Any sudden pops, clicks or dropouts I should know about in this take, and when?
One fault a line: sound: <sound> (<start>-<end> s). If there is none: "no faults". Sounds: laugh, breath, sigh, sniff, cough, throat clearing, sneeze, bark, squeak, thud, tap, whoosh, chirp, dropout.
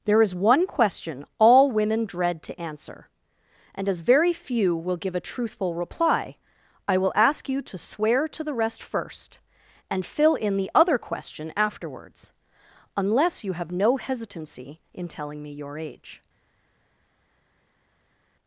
no faults